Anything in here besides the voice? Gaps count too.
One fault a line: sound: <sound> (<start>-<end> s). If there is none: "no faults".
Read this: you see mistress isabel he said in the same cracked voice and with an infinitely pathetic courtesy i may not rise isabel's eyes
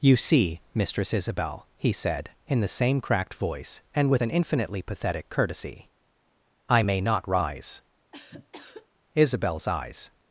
sound: cough (8.1-8.9 s)